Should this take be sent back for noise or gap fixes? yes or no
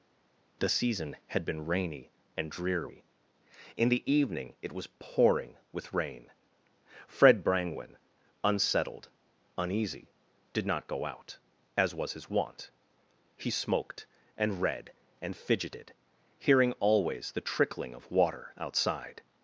no